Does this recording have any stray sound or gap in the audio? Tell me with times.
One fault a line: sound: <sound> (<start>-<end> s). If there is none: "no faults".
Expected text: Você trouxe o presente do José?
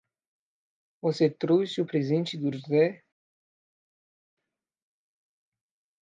no faults